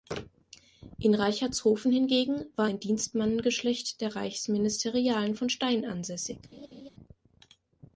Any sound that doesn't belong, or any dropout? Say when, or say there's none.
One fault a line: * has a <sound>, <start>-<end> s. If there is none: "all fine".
* has a laugh, 6.5-6.9 s